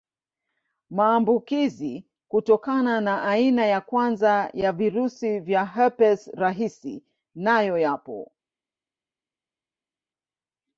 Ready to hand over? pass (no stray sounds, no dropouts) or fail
pass